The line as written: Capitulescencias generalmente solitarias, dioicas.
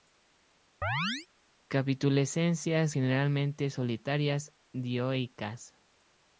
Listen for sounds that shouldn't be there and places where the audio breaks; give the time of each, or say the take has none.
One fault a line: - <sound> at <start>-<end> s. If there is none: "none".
- chirp at 0.8-1.3 s